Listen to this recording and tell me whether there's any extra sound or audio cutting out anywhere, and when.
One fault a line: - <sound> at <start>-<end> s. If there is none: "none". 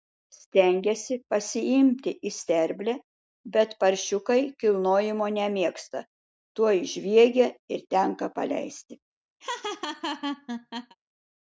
- laugh at 9.4-11.0 s